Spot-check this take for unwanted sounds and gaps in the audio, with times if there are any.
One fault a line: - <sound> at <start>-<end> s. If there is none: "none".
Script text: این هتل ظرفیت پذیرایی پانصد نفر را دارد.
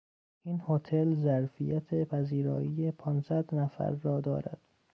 none